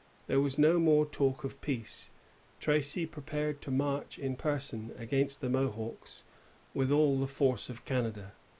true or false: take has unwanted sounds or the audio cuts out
false